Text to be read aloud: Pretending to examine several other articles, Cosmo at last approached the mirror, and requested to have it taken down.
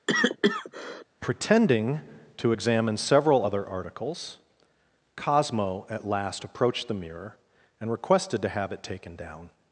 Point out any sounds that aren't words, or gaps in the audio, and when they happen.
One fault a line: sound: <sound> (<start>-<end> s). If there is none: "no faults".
sound: cough (0.1-1.0 s)